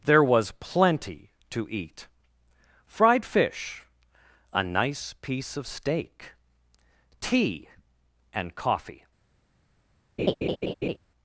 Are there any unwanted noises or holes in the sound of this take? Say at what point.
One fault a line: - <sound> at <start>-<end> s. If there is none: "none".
- laugh at 10.2-11.0 s